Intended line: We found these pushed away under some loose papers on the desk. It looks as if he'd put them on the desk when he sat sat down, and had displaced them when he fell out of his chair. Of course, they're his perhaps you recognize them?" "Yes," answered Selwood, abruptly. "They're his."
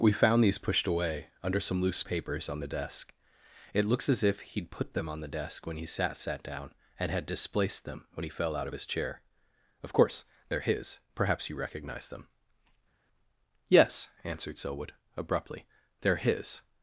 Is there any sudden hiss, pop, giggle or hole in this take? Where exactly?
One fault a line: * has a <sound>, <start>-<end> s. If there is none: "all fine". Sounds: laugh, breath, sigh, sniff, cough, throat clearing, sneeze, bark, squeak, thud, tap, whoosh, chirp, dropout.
all fine